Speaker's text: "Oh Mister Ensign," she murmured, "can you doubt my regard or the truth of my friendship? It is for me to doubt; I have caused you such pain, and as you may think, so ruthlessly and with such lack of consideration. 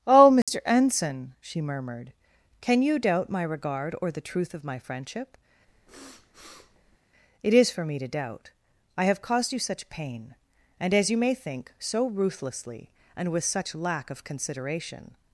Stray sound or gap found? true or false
true